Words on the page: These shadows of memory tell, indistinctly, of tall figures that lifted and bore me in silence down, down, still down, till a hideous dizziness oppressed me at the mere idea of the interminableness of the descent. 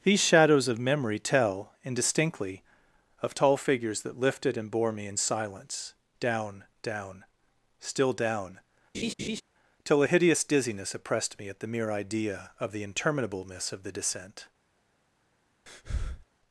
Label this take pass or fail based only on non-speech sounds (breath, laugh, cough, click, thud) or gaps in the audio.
fail